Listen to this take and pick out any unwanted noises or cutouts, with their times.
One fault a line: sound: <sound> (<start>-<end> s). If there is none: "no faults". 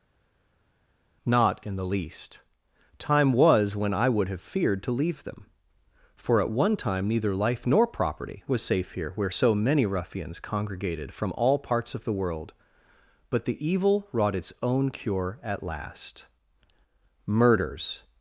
no faults